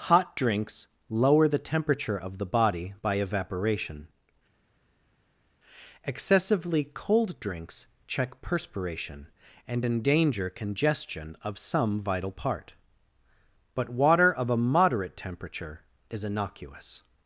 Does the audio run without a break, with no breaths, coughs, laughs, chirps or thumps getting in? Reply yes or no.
yes